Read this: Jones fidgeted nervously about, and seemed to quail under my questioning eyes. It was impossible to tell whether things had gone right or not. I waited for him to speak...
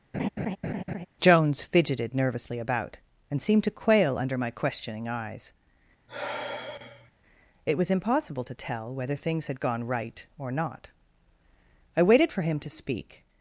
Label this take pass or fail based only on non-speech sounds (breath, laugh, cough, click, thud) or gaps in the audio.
fail